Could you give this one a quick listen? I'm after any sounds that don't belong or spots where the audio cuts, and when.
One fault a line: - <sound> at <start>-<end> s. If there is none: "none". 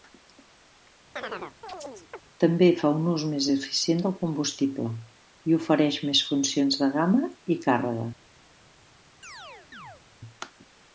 - chirp at 1.2-2.2 s
- chirp at 9.2-10.0 s